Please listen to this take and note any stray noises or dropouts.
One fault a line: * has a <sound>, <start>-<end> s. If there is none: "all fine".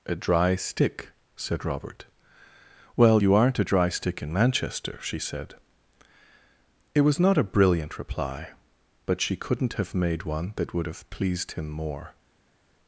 all fine